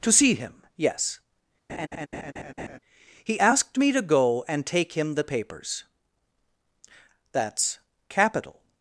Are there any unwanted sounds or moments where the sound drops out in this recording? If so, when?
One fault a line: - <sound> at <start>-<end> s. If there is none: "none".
- laugh at 1.7-2.8 s